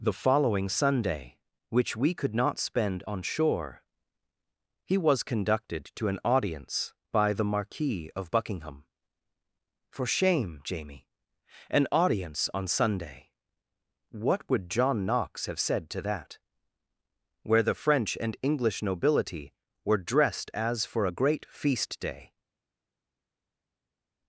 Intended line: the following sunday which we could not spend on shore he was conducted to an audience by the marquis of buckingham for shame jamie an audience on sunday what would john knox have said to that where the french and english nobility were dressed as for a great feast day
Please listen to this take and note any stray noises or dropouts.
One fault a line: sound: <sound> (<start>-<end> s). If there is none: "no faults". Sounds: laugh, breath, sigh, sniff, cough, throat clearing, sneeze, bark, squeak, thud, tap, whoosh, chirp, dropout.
no faults